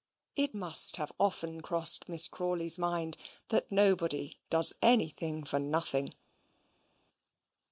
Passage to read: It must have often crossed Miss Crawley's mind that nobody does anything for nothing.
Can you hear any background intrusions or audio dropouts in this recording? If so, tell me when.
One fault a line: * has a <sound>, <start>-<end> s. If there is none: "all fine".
all fine